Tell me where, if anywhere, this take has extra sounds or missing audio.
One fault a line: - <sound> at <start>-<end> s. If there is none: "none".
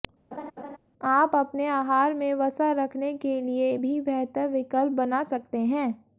- laugh at 0.3-0.8 s